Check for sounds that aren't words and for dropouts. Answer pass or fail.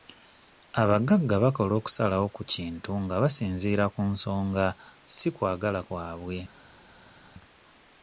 pass